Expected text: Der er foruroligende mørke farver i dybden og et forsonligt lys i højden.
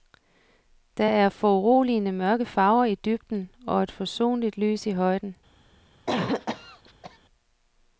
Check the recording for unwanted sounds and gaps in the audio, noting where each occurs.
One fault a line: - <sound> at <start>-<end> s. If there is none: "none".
- cough at 6.1-7.2 s